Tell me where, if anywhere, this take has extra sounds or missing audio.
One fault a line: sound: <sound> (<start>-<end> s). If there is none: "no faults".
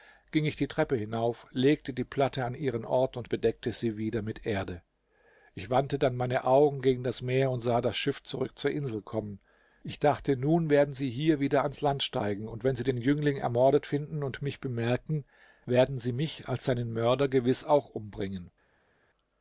no faults